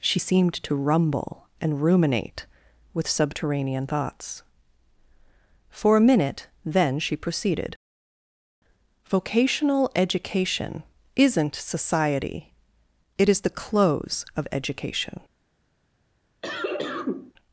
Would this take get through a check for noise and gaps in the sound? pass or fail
fail